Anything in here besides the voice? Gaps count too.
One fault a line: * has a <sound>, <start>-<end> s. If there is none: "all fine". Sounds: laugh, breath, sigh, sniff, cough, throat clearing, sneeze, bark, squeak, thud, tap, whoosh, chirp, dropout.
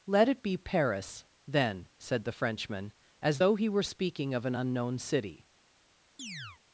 * has a chirp, 6.2-6.6 s